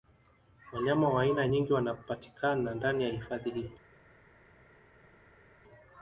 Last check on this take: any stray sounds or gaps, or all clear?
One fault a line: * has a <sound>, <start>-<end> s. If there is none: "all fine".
all fine